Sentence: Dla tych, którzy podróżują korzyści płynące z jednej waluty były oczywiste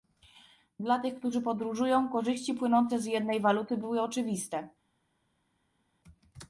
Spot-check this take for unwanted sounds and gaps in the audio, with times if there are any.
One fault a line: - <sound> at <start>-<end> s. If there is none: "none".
none